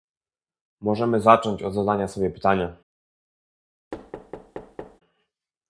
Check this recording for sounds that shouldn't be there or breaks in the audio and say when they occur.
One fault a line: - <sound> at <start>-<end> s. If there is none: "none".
- thud at 3.9-5.0 s